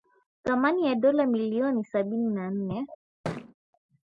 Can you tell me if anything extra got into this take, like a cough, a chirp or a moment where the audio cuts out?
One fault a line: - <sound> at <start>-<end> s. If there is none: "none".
- thud at 3.2-3.5 s